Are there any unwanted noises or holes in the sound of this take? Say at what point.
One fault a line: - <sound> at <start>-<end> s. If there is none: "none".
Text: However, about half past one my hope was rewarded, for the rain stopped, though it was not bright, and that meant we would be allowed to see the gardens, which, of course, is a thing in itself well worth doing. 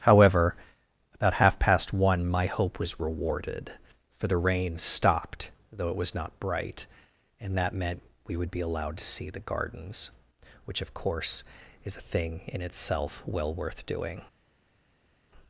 none